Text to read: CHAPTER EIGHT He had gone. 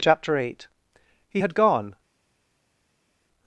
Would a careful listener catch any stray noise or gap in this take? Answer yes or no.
no